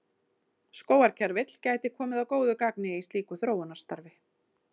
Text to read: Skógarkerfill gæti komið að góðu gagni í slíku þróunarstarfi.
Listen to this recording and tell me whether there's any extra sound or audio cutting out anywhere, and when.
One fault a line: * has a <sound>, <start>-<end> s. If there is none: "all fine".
all fine